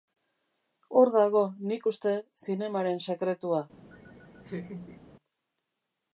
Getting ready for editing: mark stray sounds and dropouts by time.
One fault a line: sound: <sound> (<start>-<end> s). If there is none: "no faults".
sound: laugh (3.9-5.0 s)